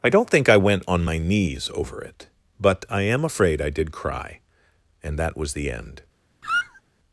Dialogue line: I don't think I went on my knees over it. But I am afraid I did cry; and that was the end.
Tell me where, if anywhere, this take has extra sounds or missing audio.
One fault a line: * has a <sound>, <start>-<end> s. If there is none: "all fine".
* has a squeak, 6.4-6.8 s